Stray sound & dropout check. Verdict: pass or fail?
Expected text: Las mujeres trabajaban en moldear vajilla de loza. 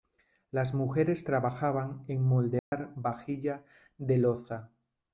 fail